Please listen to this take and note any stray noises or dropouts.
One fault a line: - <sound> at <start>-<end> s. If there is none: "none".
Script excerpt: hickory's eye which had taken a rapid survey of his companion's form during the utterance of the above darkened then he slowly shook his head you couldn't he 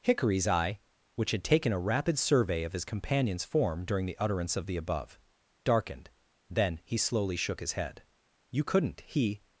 none